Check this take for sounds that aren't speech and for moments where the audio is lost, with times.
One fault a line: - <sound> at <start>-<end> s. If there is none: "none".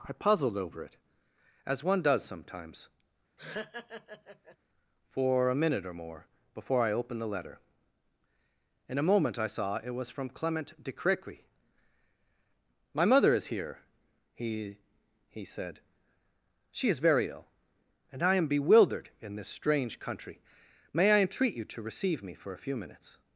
- laugh at 3.4-4.6 s